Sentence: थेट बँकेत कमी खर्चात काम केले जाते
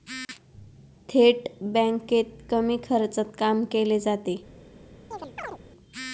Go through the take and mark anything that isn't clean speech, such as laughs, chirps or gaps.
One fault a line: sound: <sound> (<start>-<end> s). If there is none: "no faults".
sound: chirp (5.1-5.6 s)